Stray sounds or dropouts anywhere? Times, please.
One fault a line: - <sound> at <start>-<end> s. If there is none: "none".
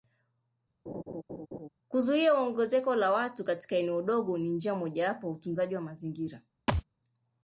- laugh at 0.9-1.7 s
- thud at 6.7-6.8 s